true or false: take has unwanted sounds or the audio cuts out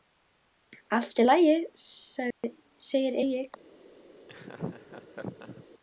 true